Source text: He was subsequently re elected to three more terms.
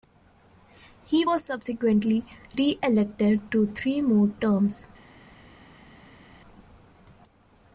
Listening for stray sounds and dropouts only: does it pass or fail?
pass